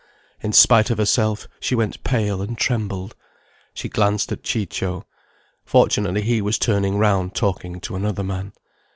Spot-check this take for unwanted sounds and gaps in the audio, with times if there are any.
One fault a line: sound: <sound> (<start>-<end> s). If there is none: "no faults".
no faults